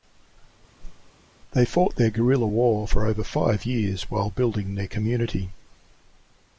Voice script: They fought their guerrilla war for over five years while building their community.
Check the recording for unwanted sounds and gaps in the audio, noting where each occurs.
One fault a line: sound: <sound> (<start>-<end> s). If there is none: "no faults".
sound: whoosh (0.8-1.1 s)